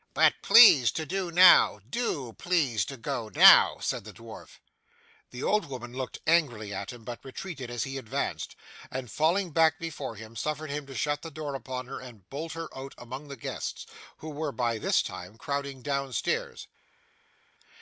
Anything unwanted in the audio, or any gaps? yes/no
no